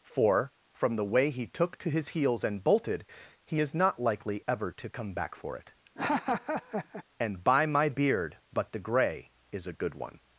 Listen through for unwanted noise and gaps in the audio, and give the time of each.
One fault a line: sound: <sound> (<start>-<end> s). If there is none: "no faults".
sound: laugh (5.9-7.0 s)